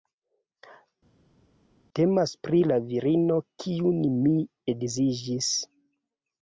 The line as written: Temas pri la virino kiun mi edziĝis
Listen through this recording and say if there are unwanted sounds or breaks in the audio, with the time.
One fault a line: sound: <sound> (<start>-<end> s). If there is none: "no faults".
no faults